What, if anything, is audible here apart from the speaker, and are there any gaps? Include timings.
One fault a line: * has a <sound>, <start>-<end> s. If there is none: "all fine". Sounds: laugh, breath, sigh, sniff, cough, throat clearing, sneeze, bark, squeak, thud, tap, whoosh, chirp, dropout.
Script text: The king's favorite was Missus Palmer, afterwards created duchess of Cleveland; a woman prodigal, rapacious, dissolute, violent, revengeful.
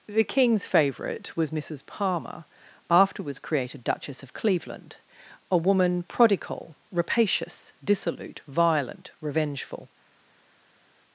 all fine